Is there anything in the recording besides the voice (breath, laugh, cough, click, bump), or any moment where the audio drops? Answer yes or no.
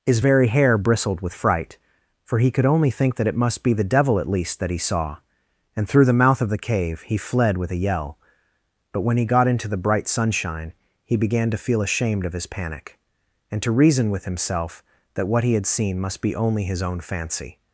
no